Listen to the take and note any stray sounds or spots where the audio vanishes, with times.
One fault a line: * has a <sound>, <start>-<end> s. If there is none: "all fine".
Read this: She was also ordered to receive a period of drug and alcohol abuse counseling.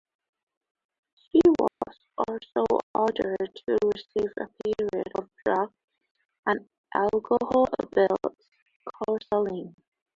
* has a dropout, 1.7-1.8 s